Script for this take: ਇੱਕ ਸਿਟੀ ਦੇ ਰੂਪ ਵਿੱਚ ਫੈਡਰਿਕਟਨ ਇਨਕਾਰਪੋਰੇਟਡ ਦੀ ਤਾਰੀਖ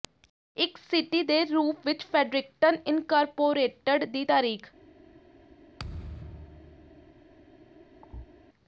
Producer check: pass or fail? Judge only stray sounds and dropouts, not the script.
fail